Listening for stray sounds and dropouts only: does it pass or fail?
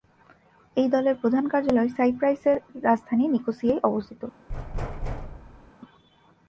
fail